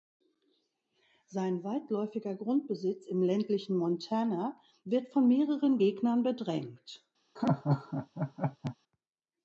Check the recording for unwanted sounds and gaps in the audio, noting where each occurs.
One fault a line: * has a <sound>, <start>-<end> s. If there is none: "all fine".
* has a laugh, 7.4-8.8 s